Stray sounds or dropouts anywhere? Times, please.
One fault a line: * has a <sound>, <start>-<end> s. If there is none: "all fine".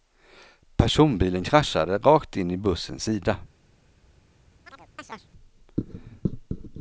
* has a chirp, 4.7-5.3 s